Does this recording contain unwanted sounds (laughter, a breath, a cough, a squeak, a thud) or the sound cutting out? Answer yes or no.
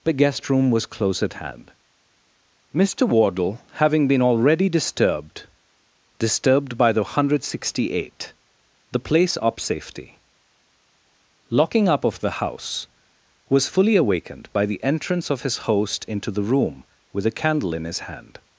no